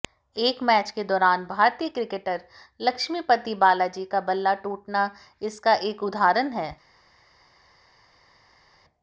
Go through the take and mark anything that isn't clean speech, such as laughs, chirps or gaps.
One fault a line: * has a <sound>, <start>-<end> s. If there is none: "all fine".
all fine